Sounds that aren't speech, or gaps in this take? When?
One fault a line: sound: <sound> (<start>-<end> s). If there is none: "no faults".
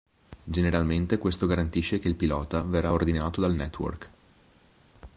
no faults